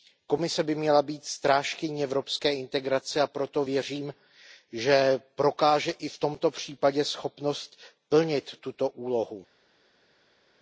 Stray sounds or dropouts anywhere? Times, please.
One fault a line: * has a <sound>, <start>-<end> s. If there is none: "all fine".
all fine